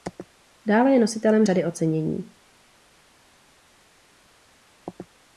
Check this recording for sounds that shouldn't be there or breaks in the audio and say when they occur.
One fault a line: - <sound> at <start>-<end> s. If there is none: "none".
none